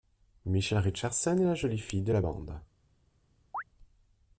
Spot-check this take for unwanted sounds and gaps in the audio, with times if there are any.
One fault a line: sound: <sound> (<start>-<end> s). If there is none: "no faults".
sound: chirp (3.5-3.6 s)